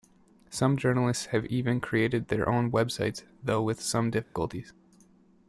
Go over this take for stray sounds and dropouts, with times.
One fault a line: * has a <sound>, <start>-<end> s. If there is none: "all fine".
* has a dropout, 4.2-4.4 s